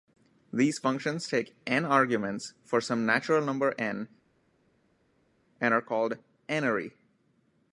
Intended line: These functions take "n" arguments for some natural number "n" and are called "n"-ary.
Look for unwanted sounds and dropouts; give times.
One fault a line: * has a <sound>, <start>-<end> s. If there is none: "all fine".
all fine